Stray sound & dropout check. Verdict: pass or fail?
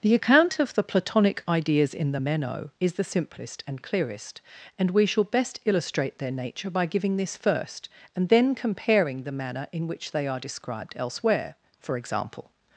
pass